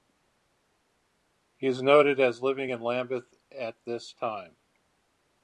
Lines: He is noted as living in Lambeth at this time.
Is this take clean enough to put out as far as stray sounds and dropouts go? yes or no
yes